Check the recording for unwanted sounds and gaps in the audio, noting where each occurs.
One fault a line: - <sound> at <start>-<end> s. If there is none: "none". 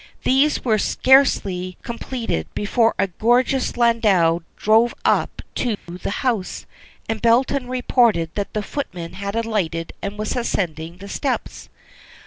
- dropout at 5.7-5.9 s